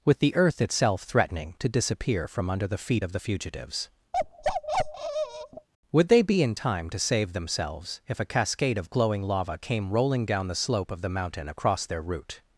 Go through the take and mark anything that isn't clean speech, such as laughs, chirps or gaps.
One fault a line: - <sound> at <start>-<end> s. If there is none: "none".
- bark at 4.1-5.7 s